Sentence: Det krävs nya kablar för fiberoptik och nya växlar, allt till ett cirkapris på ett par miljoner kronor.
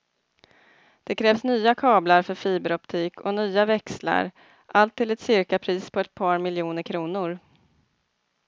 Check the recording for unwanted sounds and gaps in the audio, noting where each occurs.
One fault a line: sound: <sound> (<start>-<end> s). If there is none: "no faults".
no faults